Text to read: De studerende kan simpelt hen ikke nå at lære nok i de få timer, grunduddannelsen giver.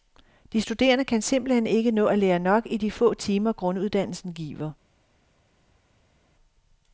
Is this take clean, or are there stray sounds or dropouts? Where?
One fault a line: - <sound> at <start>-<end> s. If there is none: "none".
none